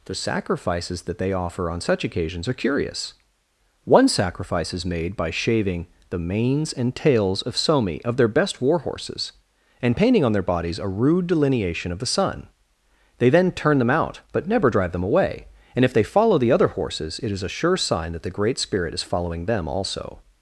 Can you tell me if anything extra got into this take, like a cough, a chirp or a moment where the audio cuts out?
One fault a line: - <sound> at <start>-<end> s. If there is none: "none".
none